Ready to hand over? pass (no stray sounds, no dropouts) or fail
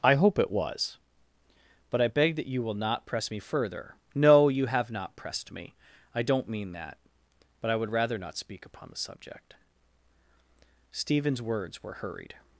pass